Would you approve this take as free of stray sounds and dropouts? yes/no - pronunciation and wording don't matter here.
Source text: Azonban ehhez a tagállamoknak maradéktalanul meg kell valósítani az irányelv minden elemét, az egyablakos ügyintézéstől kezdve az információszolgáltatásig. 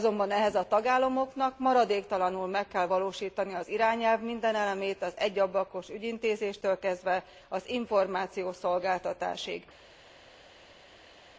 yes